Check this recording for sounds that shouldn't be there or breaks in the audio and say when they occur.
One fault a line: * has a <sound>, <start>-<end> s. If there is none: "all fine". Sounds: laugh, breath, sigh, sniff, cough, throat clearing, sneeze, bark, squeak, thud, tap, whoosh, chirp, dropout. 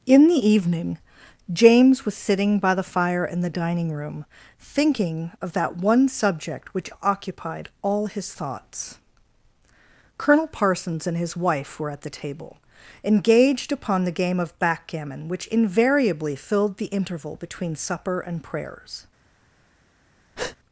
* has a breath, 20.4-20.6 s